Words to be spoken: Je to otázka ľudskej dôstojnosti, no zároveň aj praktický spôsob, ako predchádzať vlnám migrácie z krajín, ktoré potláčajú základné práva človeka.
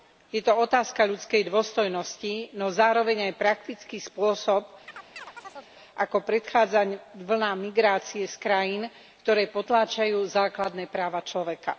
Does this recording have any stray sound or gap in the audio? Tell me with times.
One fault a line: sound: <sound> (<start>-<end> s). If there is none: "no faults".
sound: chirp (4.9-5.7 s)